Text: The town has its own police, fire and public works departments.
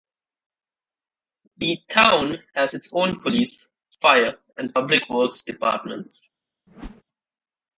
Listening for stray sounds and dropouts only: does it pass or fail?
fail